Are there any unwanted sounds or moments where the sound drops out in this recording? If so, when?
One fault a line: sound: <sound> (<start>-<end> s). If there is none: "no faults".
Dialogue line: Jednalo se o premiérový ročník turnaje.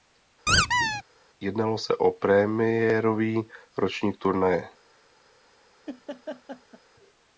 sound: squeak (0.5-1.0 s)
sound: laugh (5.9-6.8 s)